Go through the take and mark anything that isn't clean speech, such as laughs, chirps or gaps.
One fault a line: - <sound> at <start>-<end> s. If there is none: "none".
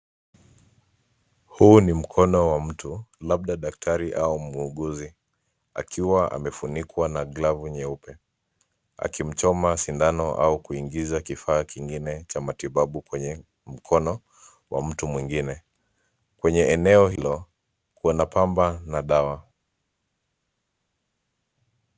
none